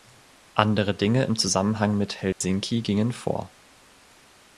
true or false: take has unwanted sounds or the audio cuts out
true